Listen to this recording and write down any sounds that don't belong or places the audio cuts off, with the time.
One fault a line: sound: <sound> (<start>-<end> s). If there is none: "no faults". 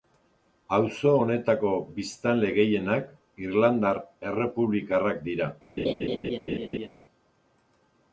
sound: laugh (5.8-6.9 s)